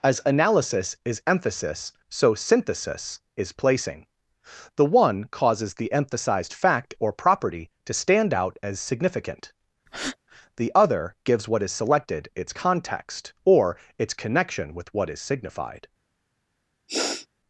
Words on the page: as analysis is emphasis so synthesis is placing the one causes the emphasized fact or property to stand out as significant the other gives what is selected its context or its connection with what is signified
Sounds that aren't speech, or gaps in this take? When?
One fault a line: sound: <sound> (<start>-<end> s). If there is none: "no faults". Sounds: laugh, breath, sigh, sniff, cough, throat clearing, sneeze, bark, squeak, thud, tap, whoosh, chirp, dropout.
sound: breath (9.9-10.2 s)
sound: sniff (16.9-17.3 s)